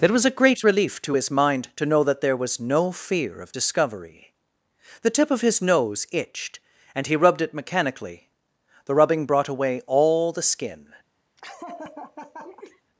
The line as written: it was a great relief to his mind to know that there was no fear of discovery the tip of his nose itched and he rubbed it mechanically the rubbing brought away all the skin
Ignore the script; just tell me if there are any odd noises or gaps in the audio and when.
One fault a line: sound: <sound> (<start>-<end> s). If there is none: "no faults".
sound: laugh (11.4-12.8 s)